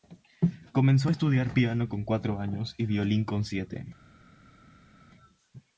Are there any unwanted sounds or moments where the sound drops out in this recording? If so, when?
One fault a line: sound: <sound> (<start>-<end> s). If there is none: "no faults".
no faults